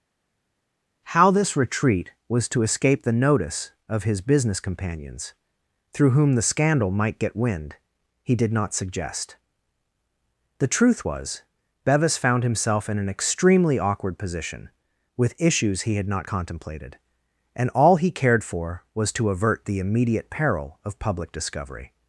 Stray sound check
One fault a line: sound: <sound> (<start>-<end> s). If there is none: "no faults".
no faults